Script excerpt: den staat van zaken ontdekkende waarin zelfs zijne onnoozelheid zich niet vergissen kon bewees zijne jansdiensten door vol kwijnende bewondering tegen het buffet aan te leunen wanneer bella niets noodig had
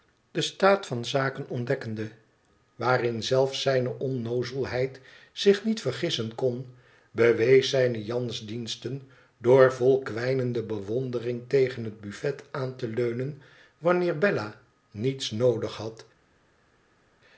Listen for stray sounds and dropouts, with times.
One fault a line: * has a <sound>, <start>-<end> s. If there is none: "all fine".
all fine